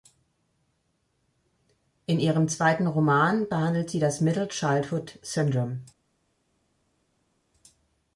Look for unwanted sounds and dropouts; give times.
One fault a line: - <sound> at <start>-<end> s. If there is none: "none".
none